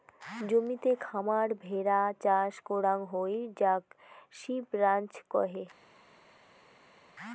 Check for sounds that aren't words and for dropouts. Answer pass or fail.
pass